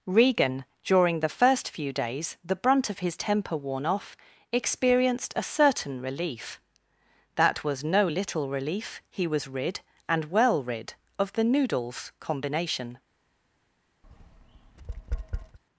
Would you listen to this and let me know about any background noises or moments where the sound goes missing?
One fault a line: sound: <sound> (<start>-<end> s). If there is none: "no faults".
sound: tap (14.0-15.6 s)